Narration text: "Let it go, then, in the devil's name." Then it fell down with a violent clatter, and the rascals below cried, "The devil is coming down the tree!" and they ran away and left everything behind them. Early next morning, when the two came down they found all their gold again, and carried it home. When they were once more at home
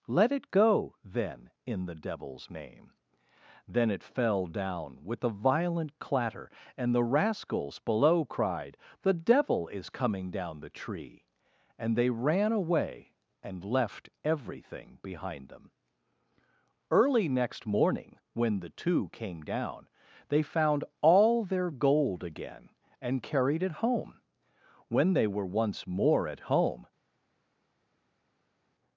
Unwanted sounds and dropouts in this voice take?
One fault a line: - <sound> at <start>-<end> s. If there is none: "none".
none